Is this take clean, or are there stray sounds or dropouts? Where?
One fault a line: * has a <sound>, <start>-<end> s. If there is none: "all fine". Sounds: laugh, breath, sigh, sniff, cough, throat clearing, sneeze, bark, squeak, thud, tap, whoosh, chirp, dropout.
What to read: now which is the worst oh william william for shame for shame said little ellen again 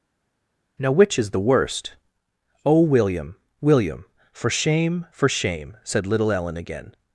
all fine